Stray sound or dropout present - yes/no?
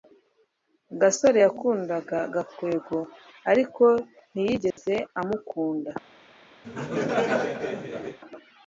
yes